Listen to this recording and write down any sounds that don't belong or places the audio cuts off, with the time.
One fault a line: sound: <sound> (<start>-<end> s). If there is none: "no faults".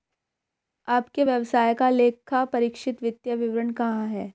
no faults